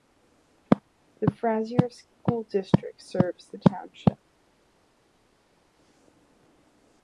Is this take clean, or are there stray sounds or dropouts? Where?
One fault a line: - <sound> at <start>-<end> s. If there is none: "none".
none